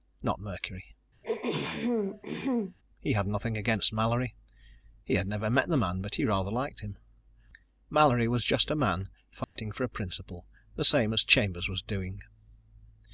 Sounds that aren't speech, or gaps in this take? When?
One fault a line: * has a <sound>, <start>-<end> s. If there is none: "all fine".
* has a throat clearing, 1.2-2.8 s
* has a dropout, 9.4-9.6 s